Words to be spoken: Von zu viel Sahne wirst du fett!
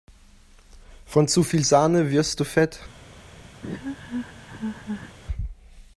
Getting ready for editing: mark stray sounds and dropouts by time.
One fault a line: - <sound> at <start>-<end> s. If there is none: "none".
- laugh at 3.6-5.2 s